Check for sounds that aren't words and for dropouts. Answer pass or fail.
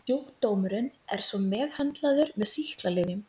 pass